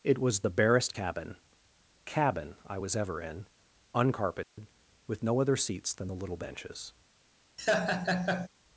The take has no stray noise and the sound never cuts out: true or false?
false